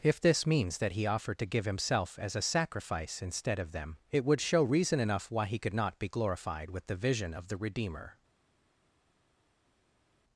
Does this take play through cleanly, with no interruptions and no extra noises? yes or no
yes